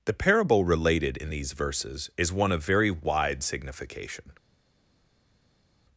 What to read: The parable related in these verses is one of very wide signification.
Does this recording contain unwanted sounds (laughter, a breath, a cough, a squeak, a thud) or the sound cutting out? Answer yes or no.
no